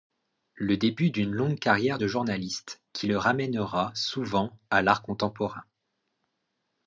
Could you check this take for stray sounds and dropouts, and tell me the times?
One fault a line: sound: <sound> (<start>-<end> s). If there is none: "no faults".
no faults